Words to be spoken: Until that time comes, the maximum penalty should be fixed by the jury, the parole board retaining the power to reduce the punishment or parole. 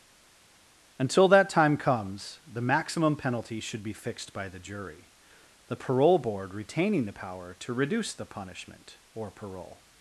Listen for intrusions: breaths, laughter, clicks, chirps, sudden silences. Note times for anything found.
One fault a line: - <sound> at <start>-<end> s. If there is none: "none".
none